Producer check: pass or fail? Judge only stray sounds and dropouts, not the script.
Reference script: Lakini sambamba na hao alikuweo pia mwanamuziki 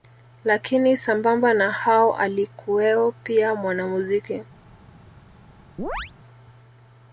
fail